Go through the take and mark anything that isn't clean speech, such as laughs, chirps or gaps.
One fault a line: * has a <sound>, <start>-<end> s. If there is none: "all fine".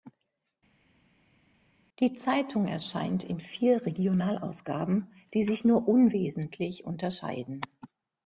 all fine